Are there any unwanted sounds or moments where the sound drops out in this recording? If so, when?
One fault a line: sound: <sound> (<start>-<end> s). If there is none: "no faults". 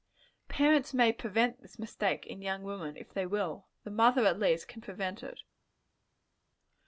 no faults